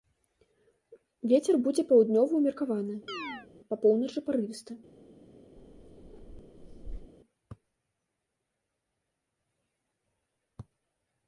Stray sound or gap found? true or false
true